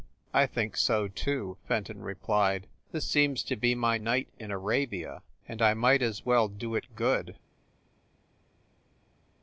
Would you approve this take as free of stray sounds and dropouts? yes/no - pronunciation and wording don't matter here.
yes